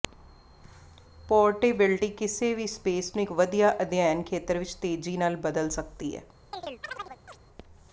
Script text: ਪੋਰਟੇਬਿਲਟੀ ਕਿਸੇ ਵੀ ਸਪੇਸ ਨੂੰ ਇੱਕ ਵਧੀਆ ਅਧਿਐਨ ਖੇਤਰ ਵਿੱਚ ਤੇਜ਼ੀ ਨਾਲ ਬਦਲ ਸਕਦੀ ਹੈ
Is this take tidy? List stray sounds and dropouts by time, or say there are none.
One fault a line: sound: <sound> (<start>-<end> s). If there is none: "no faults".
sound: chirp (6.5-7.4 s)